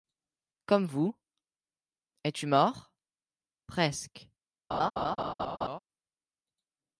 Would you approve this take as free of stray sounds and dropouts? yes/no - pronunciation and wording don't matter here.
no